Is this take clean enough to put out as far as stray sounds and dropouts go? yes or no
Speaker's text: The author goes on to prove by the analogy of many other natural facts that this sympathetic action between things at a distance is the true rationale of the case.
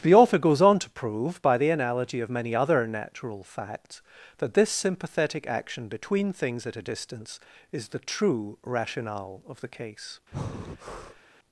no